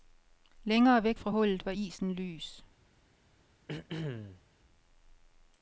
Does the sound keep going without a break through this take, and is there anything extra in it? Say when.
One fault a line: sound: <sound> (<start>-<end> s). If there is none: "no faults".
sound: throat clearing (3.7-4.4 s)